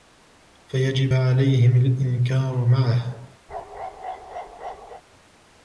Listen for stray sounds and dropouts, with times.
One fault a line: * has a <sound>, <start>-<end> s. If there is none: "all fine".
* has a bark, 3.5-5.0 s